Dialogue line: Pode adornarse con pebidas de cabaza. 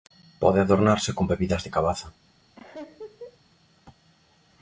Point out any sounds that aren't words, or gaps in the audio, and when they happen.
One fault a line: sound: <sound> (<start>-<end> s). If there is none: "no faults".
sound: laugh (2.6-3.4 s)